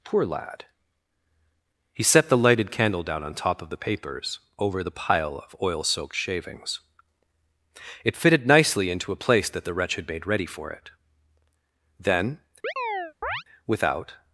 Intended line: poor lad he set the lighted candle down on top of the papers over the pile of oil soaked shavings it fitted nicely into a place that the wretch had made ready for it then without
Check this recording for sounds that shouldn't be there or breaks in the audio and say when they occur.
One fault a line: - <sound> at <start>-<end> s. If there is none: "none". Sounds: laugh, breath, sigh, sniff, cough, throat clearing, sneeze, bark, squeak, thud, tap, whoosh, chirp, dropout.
- chirp at 12.6-13.4 s